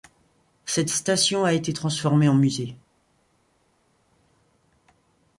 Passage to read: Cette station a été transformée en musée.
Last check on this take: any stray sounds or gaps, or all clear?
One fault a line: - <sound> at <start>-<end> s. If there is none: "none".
none